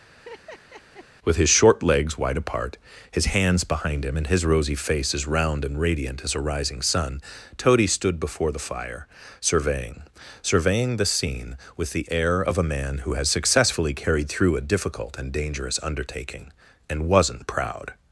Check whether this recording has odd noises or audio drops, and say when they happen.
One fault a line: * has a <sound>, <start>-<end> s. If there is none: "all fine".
* has a laugh, 0.1-1.1 s